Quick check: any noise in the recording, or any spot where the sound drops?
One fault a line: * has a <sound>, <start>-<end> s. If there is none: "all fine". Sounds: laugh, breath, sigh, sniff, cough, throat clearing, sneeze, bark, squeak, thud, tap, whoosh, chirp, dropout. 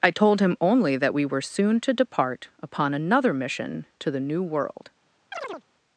* has a chirp, 5.3-5.6 s